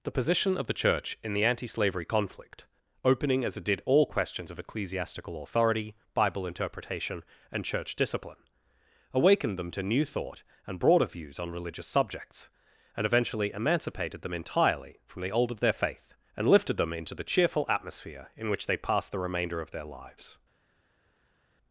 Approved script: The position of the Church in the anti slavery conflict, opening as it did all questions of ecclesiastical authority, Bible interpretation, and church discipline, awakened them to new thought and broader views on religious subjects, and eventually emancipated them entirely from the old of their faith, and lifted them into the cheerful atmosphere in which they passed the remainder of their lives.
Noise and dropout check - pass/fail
pass